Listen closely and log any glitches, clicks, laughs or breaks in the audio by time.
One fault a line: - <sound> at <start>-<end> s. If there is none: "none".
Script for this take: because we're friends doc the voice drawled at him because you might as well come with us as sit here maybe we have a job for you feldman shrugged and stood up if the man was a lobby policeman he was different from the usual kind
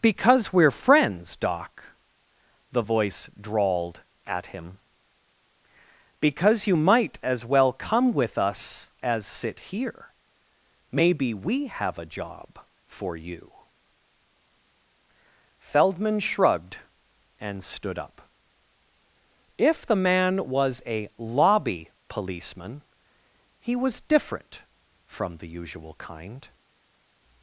none